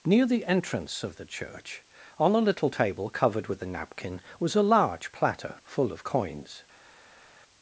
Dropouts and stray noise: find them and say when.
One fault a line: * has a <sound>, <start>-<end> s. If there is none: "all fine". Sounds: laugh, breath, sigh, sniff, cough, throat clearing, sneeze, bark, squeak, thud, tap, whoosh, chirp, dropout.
all fine